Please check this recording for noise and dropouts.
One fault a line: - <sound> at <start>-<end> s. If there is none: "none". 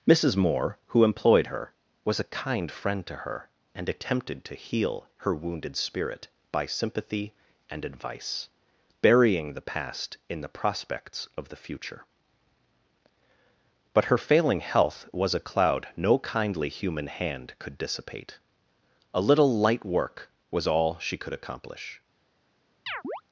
- chirp at 22.9-23.2 s